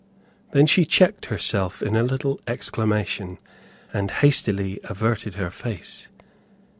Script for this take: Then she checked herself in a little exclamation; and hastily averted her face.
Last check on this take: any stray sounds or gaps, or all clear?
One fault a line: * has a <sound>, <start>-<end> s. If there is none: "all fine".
all fine